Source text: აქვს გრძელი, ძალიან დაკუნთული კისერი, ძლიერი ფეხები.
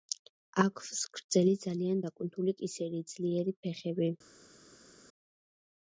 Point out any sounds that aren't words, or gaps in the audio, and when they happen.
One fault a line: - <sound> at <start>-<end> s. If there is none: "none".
none